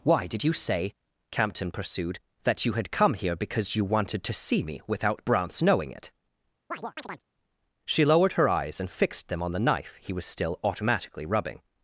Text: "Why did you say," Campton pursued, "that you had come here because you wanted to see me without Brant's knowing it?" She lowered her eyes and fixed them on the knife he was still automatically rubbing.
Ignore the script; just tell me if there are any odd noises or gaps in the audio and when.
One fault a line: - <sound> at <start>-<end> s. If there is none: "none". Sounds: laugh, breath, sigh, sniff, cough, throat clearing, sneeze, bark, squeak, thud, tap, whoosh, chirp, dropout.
- chirp at 6.7-7.2 s